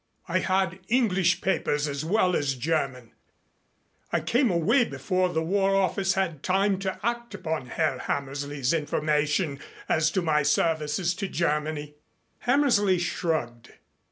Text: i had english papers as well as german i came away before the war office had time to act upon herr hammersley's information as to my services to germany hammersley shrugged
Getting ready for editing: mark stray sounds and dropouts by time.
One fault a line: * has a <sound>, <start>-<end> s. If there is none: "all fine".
all fine